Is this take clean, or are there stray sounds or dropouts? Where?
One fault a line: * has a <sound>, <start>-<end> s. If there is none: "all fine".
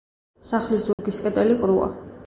* has a dropout, 0.9-1.0 s